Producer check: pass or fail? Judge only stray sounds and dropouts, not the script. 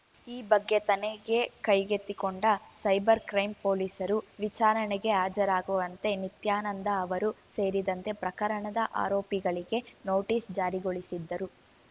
pass